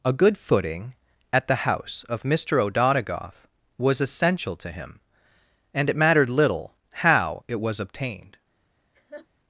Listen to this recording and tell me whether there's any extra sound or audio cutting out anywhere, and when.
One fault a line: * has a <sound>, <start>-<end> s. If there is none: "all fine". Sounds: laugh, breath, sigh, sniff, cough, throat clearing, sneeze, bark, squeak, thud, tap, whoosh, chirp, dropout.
* has a laugh, 8.9-9.3 s